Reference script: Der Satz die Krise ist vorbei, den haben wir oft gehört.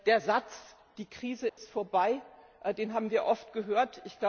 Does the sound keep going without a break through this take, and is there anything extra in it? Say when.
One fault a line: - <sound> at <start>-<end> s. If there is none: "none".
- dropout at 1.5-1.6 s